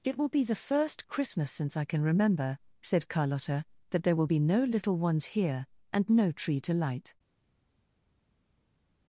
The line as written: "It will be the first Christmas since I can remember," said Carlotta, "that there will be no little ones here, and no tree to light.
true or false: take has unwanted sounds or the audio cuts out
false